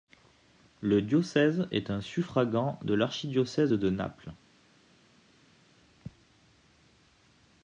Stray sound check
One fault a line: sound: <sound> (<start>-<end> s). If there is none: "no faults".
no faults